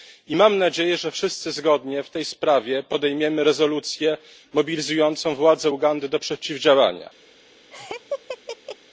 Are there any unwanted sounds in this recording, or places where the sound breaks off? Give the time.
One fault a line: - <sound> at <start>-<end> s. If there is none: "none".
- laugh at 7.7-8.8 s